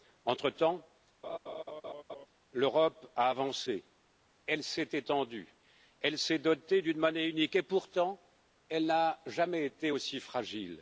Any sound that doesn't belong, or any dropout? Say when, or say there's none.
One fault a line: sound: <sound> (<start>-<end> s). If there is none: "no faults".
sound: laugh (1.2-2.3 s)